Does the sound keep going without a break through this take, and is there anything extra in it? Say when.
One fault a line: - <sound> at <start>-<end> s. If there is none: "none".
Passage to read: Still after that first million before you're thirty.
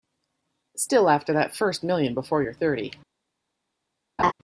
- laugh at 4.2-4.3 s